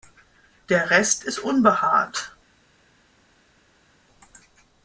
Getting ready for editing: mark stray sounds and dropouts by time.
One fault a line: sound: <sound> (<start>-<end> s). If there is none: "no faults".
no faults